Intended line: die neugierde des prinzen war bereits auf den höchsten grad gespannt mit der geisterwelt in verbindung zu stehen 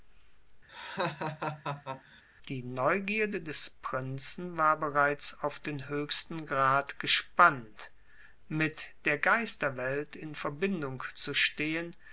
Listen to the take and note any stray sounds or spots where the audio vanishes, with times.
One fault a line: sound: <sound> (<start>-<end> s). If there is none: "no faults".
sound: laugh (0.7-2.2 s)